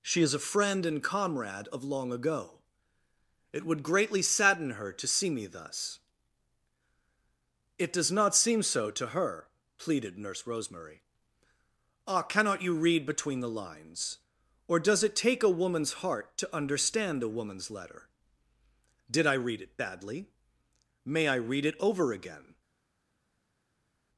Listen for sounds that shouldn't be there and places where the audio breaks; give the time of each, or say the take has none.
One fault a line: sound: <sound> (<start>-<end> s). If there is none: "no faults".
no faults